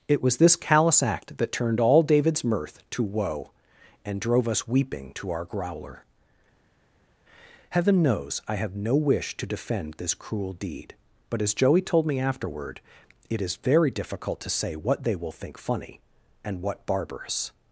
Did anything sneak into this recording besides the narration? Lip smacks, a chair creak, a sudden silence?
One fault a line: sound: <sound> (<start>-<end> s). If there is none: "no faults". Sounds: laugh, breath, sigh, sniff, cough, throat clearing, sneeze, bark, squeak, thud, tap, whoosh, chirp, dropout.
no faults